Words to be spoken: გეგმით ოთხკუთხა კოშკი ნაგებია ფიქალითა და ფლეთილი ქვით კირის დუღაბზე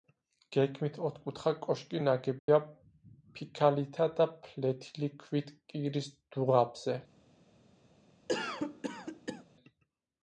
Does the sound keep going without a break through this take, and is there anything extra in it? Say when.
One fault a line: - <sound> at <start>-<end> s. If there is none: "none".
- dropout at 2.4-2.5 s
- cough at 8.3-9.4 s